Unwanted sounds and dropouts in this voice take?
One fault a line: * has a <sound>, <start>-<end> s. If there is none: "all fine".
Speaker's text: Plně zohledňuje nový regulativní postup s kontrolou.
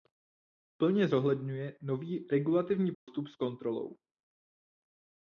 * has a dropout, 2.9-3.1 s